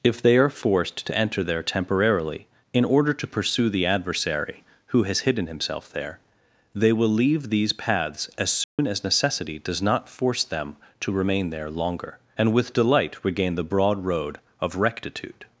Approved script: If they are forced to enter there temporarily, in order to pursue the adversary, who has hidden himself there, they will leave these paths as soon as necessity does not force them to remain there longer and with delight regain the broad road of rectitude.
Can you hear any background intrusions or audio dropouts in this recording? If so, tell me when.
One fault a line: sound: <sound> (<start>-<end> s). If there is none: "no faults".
sound: dropout (8.6-8.8 s)